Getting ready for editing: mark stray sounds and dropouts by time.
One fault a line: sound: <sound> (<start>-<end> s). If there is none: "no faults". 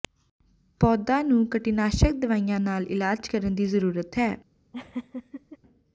sound: laugh (4.7-5.6 s)